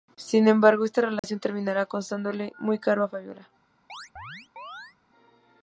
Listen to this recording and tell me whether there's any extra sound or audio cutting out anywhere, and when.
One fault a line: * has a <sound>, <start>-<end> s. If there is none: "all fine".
* has a dropout, 1.2-1.2 s
* has a chirp, 3.9-5.0 s